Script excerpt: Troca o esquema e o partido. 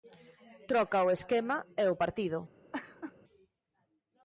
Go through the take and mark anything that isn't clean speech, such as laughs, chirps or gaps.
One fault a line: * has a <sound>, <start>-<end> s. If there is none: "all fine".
* has a laugh, 2.7-3.1 s